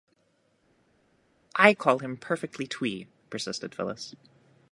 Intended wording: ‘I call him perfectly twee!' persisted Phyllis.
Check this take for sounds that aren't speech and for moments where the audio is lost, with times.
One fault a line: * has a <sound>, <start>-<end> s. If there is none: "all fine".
all fine